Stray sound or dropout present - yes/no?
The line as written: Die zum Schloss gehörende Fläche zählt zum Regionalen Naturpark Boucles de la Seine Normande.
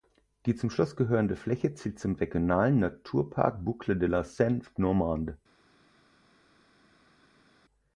no